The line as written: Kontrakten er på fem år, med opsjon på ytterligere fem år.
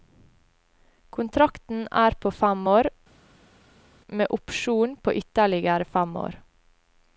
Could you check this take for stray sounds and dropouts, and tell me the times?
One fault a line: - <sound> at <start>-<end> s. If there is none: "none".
none